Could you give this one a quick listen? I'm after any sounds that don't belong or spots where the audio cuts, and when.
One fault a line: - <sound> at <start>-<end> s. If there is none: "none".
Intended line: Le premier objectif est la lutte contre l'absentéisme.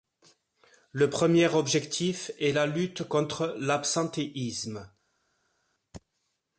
none